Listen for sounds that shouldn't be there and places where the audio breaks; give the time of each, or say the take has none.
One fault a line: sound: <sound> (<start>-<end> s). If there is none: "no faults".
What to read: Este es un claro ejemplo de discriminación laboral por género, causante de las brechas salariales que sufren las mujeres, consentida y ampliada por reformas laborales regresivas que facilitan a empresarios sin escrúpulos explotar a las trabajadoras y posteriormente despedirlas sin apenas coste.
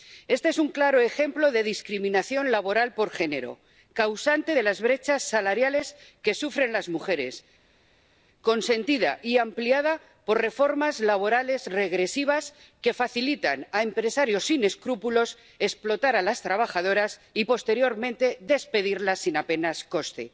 no faults